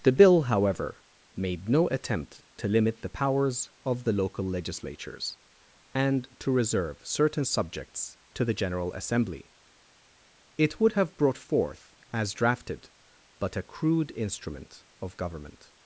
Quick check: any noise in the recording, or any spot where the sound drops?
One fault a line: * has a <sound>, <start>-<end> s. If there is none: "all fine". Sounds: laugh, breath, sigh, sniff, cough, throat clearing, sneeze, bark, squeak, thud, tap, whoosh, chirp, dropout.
all fine